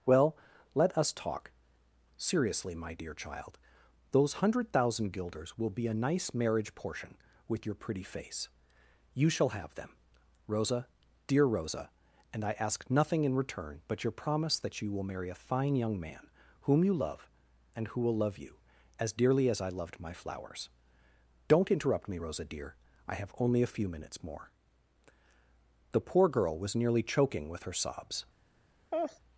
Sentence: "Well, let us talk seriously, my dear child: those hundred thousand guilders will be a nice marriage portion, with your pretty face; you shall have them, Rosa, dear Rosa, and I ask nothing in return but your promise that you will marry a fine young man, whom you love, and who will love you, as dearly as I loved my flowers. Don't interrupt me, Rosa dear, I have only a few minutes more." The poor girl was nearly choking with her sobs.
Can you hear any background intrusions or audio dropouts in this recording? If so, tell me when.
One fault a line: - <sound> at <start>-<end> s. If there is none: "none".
- laugh at 28.9-29.2 s